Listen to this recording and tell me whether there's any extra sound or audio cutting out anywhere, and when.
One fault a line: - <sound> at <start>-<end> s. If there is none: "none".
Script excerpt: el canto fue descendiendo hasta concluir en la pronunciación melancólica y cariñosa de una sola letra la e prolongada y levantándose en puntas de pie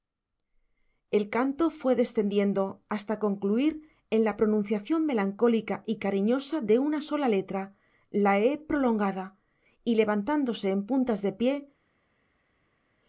none